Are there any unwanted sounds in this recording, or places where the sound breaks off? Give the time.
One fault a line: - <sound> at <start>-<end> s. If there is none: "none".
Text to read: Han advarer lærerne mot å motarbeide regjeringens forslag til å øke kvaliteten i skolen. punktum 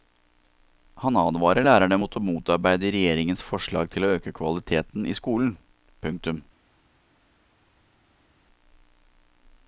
none